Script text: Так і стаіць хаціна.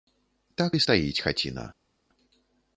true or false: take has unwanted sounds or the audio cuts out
false